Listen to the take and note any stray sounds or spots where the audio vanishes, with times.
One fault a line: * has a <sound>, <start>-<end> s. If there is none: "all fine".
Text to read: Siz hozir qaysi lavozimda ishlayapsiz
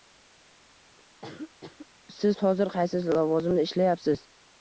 * has a cough, 1.2-1.9 s